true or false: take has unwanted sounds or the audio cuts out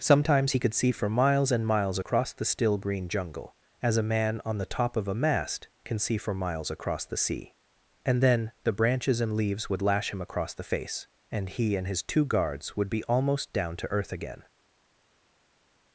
false